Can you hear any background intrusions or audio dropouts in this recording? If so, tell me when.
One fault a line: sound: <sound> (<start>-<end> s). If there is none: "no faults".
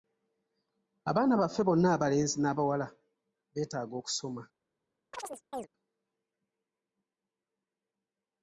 sound: chirp (5.1-5.7 s)